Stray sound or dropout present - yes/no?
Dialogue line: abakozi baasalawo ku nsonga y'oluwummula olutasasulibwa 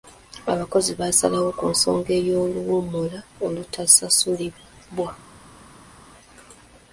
no